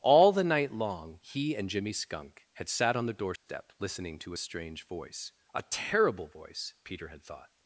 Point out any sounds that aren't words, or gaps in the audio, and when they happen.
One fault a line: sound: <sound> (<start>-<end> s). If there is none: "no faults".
sound: dropout (3.4-3.5 s)